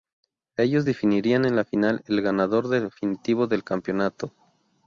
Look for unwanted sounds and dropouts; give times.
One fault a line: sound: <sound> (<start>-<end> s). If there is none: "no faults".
no faults